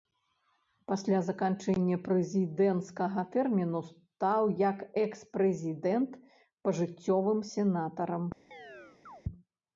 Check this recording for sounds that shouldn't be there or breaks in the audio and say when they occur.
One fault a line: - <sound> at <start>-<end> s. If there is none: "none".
- chirp at 8.5-9.2 s